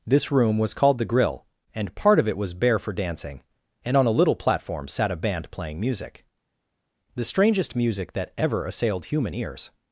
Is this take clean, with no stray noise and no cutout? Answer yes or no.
yes